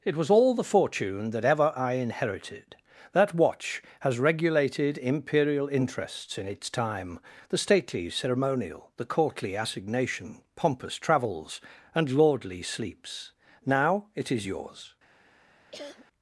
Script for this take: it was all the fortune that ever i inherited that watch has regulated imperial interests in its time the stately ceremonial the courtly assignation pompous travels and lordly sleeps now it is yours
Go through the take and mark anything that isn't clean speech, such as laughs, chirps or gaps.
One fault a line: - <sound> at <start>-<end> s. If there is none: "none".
- cough at 15.7-16.1 s